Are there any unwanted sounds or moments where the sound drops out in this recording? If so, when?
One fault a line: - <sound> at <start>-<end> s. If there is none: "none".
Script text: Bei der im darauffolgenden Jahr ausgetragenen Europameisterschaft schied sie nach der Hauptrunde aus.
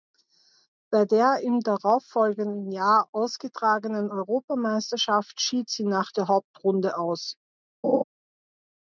- laugh at 7.8-8.0 s